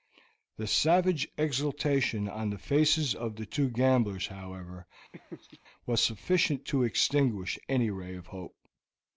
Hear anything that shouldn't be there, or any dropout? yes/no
yes